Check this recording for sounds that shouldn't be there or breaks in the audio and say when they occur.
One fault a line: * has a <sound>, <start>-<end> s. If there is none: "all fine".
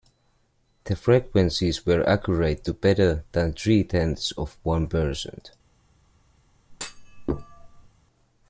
* has a thud, 6.7-7.9 s